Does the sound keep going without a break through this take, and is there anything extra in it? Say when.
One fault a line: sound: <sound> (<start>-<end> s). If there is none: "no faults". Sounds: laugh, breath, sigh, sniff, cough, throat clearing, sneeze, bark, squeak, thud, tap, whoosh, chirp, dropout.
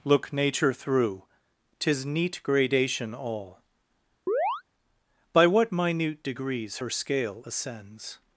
sound: chirp (4.3-4.6 s)